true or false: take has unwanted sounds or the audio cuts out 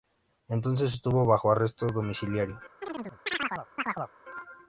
true